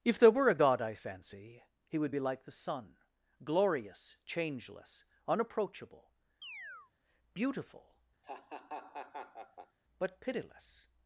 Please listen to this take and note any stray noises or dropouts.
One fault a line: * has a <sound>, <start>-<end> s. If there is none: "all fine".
* has a chirp, 6.4-6.9 s
* has a laugh, 8.2-9.8 s